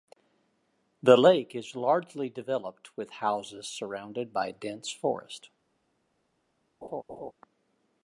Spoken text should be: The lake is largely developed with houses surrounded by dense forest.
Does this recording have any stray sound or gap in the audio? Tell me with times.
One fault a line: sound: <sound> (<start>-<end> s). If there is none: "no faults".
sound: laugh (6.8-7.3 s)